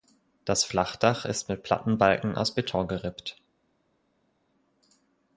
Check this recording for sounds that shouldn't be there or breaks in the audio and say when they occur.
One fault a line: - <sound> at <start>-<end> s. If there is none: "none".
none